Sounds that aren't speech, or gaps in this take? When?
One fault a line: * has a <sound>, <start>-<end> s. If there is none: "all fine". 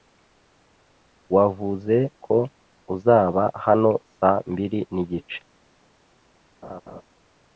* has a laugh, 6.6-7.0 s